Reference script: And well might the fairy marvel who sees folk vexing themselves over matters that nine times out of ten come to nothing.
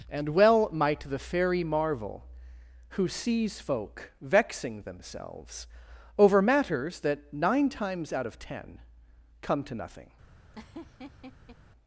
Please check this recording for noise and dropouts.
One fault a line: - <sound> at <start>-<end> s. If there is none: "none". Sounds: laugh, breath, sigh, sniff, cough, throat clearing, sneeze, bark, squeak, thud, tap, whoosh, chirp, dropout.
- laugh at 10.5-11.6 s